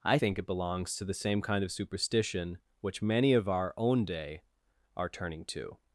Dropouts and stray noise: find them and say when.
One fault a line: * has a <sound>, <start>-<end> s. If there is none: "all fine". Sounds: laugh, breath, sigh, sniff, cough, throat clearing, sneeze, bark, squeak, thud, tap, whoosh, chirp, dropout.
all fine